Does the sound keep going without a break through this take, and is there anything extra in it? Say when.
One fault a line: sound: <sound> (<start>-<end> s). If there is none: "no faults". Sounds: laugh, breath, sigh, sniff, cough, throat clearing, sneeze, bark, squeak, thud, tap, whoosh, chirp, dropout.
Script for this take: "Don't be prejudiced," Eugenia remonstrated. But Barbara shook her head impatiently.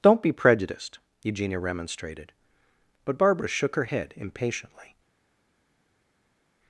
no faults